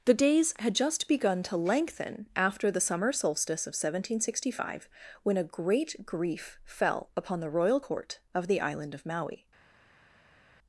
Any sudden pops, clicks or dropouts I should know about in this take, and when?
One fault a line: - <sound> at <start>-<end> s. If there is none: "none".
none